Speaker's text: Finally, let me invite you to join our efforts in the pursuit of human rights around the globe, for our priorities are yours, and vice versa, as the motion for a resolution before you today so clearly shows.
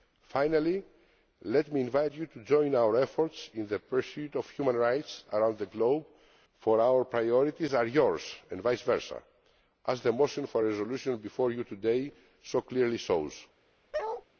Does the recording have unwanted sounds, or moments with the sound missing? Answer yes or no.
yes